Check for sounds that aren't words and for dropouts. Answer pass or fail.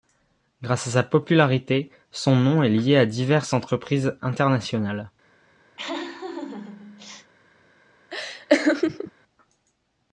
fail